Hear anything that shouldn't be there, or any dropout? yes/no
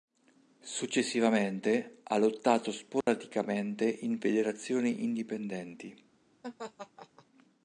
yes